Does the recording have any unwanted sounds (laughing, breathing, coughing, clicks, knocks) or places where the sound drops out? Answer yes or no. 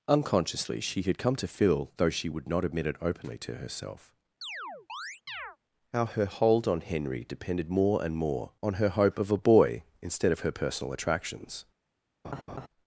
yes